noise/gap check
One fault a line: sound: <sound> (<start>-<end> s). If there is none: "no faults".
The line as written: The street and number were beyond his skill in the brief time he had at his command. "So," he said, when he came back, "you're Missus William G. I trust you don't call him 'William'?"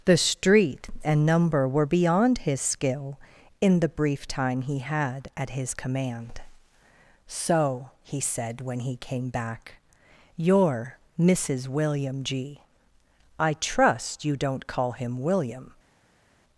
no faults